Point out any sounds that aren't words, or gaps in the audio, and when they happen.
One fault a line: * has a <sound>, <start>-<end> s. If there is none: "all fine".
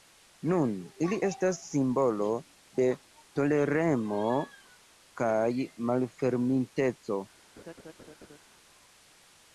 * has a laugh, 7.6-8.4 s